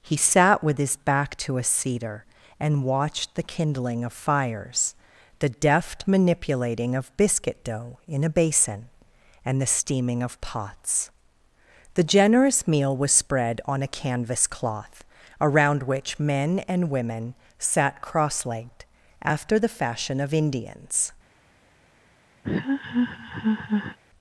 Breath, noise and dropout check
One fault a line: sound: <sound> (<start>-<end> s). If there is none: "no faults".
sound: laugh (22.4-24.0 s)